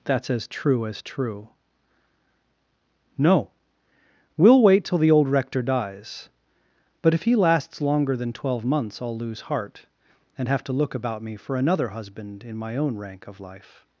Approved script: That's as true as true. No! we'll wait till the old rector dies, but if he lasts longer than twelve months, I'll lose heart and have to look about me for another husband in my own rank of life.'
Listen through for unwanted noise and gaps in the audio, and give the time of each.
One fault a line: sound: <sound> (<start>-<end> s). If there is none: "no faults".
no faults